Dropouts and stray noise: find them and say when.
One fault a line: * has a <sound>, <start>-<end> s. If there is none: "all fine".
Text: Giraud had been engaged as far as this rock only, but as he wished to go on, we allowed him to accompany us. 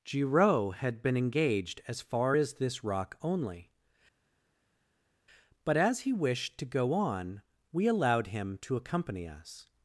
all fine